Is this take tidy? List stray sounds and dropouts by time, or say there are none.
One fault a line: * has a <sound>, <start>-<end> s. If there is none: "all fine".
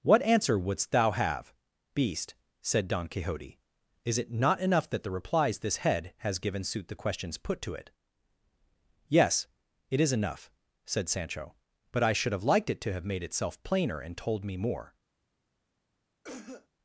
* has a cough, 16.2-16.7 s